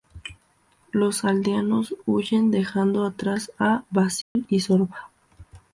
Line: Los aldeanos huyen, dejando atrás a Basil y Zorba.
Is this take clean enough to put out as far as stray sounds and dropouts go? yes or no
no